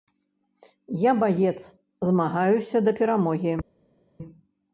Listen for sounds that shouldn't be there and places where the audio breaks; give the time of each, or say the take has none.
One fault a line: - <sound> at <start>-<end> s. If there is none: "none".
none